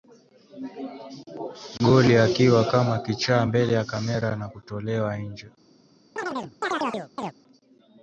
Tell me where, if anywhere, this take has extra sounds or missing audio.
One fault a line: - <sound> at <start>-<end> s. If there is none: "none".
- chirp at 6.2-7.3 s